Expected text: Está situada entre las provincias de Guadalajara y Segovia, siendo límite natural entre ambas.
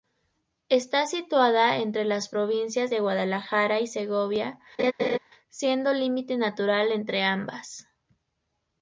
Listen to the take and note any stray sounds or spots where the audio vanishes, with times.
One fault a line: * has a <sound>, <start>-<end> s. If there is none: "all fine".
* has a laugh, 4.8-5.2 s